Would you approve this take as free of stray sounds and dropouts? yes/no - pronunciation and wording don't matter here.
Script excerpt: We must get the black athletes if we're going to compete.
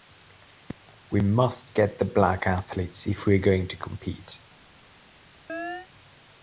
no